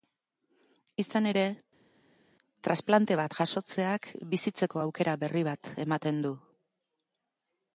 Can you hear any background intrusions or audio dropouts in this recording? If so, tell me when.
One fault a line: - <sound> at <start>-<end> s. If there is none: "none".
none